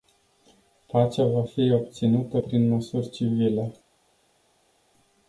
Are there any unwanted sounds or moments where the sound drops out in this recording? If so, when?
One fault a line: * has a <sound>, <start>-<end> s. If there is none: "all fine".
all fine